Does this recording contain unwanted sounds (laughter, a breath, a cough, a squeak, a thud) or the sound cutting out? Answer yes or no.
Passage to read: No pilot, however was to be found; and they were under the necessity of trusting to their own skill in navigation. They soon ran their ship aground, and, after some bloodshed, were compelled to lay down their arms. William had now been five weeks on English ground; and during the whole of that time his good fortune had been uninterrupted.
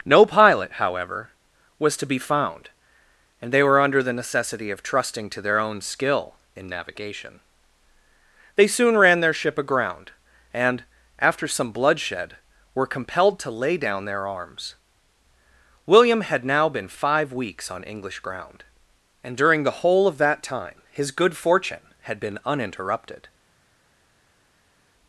no